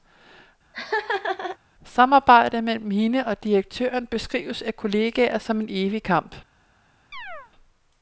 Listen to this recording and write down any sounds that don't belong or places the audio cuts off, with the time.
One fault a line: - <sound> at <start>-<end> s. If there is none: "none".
- laugh at 0.7-1.6 s
- chirp at 7.1-7.5 s